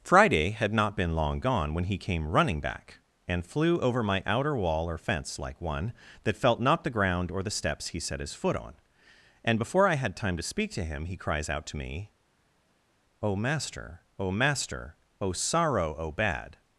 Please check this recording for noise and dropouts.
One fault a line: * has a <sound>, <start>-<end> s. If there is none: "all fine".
all fine